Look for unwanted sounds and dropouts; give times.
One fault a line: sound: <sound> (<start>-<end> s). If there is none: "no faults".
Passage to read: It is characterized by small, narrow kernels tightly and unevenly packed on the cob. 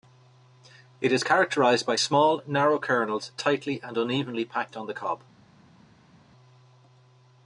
no faults